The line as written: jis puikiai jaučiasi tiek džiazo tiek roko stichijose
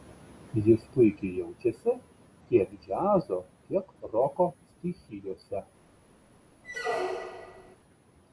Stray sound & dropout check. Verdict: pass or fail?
fail